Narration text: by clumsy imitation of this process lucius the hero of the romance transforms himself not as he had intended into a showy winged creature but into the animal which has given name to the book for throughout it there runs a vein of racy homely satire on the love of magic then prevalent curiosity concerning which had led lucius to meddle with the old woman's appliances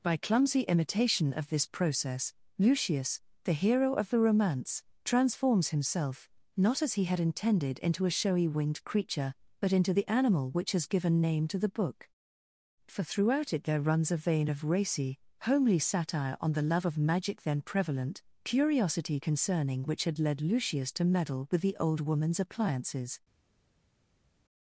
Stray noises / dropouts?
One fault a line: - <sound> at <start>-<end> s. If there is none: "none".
none